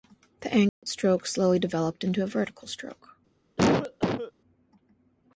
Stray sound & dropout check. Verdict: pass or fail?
fail